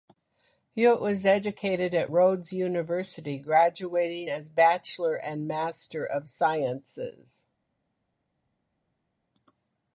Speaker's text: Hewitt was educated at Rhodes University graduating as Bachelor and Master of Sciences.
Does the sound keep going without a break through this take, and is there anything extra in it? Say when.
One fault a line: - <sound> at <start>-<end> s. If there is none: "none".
none